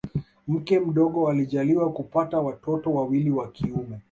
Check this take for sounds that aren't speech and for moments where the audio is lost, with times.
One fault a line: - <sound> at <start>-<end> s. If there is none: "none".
none